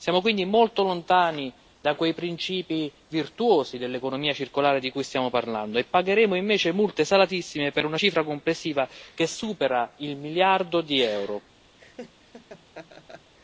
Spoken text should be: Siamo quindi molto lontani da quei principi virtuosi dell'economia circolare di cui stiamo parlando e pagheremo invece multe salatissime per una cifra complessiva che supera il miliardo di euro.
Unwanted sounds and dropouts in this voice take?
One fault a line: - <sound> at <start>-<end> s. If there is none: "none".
- laugh at 11.8-13.3 s